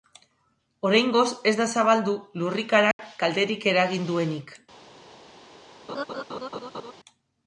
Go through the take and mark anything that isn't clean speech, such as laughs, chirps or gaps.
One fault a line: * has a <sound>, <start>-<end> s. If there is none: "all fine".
* has a dropout, 2.9-3.0 s
* has a laugh, 5.9-6.9 s